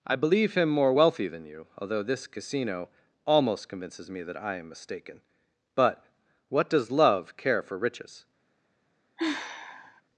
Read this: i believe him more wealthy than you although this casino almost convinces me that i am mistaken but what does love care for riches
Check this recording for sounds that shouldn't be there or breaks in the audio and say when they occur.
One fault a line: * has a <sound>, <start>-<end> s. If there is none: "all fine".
* has a sigh, 9.2-10.0 s